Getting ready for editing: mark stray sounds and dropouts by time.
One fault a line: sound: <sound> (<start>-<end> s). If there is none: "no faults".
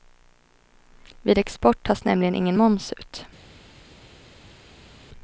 no faults